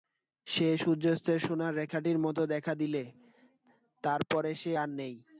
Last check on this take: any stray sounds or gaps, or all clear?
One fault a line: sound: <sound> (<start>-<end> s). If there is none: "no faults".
no faults